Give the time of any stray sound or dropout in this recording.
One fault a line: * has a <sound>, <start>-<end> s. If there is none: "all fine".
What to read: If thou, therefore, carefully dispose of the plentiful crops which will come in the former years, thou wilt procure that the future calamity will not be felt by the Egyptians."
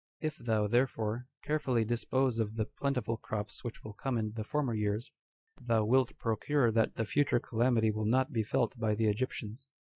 all fine